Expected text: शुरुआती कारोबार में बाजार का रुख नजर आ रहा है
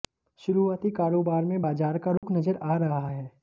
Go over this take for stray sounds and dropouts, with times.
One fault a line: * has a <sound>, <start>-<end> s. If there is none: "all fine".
* has a dropout, 2.2-2.2 s